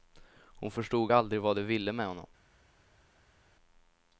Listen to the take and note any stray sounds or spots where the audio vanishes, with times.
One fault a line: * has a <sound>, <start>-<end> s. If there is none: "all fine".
all fine